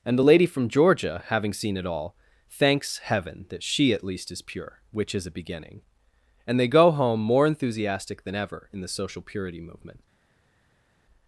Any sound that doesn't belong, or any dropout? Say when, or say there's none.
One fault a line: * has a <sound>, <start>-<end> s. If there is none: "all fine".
all fine